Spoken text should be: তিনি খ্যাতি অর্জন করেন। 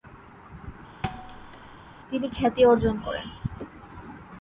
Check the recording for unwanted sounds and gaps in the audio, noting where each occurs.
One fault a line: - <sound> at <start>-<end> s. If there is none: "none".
- thud at 1.0-1.8 s